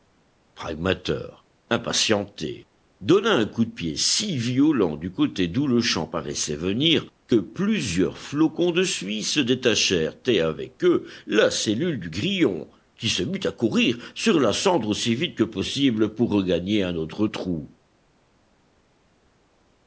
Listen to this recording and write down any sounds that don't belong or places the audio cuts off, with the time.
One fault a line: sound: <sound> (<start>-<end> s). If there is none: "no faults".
no faults